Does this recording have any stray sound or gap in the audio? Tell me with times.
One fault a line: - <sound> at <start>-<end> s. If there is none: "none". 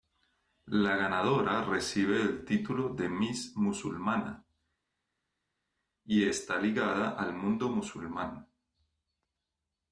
none